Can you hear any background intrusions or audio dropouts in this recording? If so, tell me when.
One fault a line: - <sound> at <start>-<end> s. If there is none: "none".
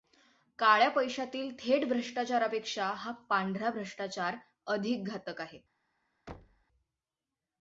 - thud at 6.3-6.6 s